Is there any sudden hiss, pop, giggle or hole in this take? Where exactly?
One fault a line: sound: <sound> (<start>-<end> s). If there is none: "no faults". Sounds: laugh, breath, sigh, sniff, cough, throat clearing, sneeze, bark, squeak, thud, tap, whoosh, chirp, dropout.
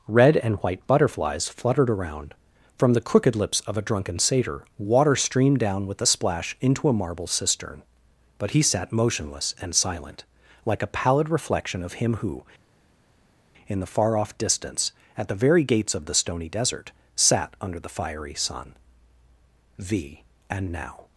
no faults